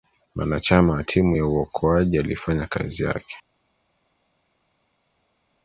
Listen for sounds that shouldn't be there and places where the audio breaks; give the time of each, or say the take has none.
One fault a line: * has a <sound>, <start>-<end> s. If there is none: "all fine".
all fine